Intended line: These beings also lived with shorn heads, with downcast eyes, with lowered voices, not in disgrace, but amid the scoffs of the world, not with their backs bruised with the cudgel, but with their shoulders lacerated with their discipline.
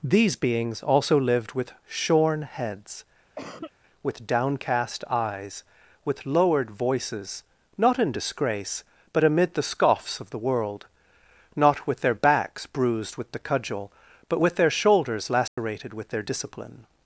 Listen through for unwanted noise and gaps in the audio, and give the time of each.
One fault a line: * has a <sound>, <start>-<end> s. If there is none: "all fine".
* has a cough, 3.4-3.7 s
* has a dropout, 15.5-15.6 s